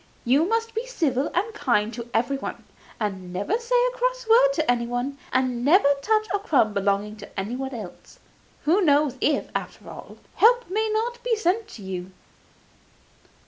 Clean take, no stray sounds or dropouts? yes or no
yes